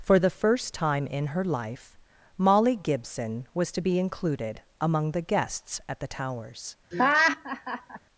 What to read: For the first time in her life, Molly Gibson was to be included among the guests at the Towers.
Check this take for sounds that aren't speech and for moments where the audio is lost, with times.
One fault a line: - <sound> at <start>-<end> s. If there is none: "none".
- laugh at 6.9-8.0 s